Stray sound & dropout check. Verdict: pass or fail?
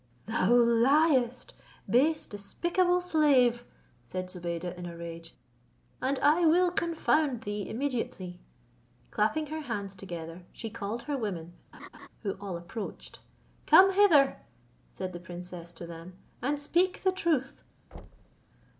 fail